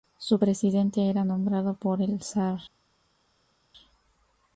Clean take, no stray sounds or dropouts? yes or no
yes